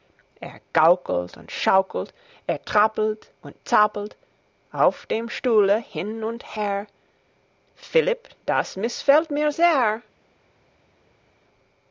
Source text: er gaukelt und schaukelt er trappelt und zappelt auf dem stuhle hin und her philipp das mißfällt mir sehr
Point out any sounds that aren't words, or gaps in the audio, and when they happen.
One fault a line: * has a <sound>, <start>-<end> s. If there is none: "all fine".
all fine